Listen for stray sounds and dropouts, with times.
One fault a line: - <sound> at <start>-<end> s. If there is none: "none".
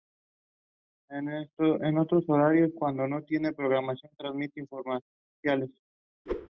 - whoosh at 6.3-6.5 s